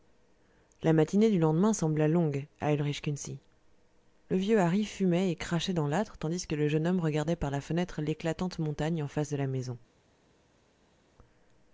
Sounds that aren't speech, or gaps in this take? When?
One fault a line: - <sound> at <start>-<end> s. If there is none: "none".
none